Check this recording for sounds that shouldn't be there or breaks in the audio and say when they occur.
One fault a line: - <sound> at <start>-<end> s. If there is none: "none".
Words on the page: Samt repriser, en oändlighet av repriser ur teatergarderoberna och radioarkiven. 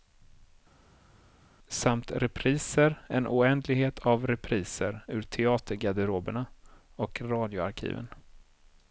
none